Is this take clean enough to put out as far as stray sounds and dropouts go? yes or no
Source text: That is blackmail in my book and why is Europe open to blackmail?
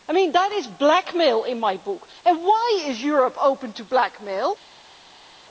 yes